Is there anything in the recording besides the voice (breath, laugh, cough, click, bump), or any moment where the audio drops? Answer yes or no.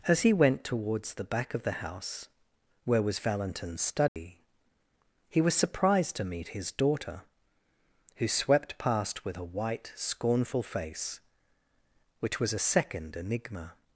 yes